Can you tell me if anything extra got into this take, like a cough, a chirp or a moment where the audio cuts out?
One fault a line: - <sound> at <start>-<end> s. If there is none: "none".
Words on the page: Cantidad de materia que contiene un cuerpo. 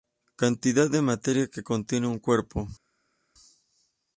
none